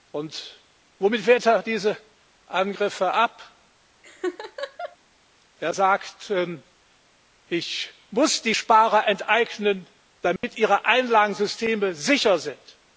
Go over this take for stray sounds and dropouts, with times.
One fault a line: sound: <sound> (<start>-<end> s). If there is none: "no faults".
sound: laugh (4.0-5.0 s)
sound: dropout (10.4-10.4 s)